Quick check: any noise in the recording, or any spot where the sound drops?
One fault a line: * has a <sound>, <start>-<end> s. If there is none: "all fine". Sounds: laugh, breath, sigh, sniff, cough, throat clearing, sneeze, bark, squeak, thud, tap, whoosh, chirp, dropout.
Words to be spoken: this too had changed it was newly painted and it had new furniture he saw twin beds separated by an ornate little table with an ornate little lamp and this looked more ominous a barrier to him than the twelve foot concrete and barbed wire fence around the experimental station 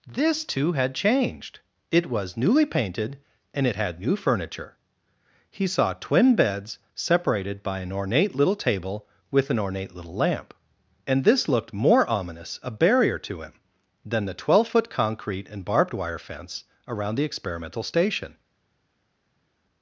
all fine